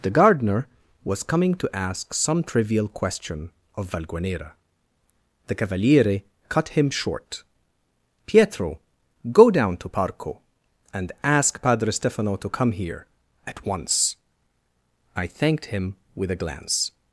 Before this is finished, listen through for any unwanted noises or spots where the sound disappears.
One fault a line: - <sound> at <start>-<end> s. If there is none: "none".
none